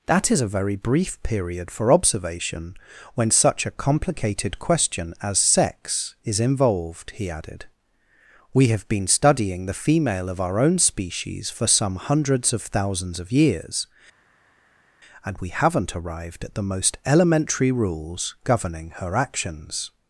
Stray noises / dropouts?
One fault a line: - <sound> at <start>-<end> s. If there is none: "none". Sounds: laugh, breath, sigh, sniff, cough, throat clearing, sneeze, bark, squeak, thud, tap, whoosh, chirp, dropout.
none